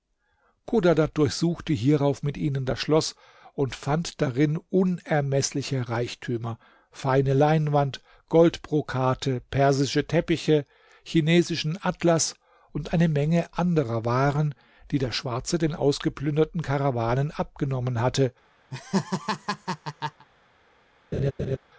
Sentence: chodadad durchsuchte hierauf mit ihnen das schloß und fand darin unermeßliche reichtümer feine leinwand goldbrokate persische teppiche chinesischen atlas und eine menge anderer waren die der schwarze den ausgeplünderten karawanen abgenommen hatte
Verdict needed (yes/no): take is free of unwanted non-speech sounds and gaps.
no